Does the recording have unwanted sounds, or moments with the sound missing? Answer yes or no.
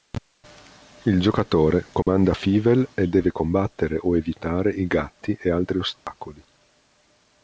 yes